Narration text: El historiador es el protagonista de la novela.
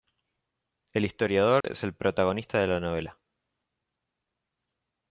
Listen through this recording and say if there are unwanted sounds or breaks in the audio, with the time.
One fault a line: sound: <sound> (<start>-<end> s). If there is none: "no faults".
sound: dropout (1.6-1.6 s)